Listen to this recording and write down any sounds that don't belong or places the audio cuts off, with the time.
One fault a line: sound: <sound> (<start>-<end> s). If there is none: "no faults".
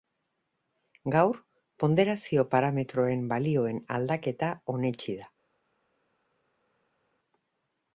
no faults